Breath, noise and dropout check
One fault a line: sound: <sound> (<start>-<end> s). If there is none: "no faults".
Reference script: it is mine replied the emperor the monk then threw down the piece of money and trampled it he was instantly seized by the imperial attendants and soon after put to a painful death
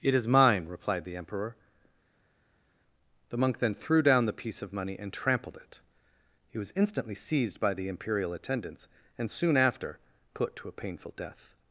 no faults